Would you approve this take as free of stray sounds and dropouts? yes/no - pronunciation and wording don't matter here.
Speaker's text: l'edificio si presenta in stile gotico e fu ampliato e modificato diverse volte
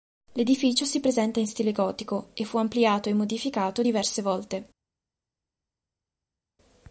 yes